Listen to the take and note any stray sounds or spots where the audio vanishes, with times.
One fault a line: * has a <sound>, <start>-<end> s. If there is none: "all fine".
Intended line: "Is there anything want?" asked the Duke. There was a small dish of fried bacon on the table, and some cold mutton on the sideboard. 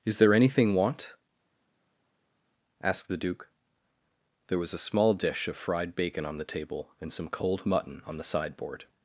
all fine